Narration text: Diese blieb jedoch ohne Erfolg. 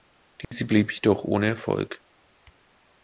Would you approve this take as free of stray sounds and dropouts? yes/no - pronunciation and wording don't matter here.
no